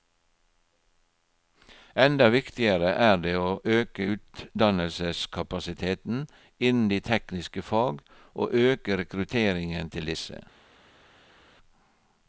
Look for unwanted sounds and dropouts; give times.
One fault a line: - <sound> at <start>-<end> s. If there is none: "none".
none